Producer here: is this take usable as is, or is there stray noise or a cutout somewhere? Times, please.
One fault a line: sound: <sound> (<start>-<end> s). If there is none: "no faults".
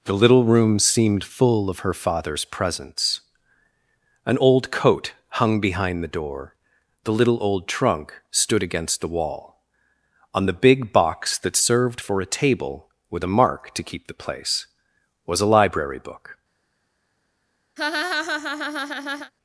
sound: laugh (17.8-19.3 s)